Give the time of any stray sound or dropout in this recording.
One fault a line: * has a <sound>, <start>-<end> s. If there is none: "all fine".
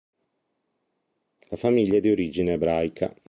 all fine